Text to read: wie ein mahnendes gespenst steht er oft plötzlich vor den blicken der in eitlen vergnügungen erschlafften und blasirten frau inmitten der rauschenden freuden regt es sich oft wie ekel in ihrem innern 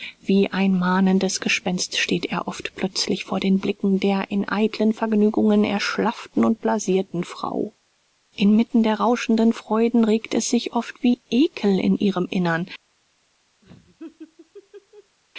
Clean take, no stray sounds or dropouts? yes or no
no